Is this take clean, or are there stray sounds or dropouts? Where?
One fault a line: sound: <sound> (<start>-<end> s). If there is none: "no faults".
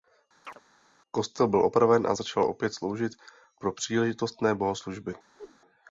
sound: chirp (0.4-0.6 s)
sound: whoosh (5.3-5.6 s)